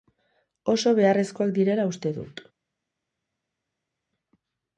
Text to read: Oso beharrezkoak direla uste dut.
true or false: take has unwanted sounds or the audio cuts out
false